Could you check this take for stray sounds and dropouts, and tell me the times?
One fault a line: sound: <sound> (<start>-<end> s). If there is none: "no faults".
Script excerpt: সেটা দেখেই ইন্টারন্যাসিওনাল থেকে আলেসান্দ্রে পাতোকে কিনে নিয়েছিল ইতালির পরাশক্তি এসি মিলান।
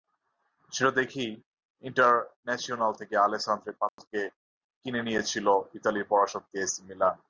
sound: dropout (3.9-4.0 s)